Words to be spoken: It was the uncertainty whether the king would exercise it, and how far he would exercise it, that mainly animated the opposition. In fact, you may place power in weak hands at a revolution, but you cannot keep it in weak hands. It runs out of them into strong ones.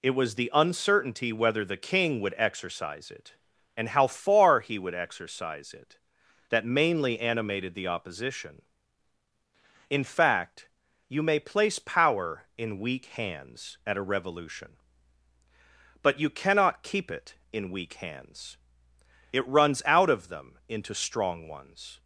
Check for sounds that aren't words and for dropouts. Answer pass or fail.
pass